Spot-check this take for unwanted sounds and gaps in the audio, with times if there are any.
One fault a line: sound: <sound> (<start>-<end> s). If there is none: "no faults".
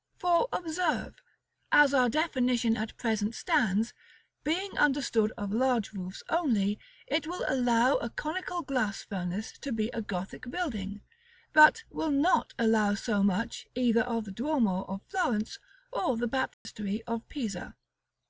sound: dropout (16.5-16.7 s)